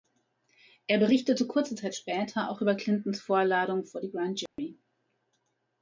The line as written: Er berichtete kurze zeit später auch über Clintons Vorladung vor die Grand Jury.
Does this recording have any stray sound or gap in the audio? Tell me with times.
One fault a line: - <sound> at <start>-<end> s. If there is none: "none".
- dropout at 4.5-4.6 s